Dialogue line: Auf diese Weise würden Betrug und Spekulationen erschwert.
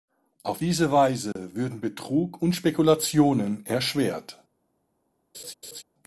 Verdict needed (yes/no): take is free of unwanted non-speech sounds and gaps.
no